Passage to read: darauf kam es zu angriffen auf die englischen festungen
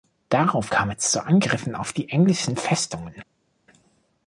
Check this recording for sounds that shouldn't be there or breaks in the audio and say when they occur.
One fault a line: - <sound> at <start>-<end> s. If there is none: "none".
none